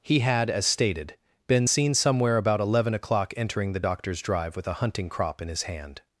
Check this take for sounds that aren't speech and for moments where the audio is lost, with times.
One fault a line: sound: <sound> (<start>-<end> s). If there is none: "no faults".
no faults